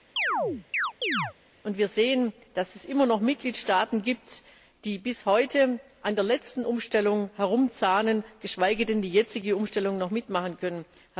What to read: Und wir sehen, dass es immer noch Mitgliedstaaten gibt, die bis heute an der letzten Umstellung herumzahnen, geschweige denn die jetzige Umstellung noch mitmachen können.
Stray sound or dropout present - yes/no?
yes